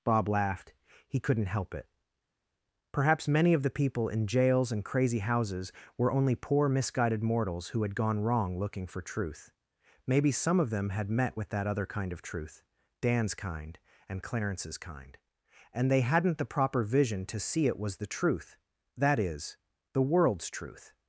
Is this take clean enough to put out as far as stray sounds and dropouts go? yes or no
yes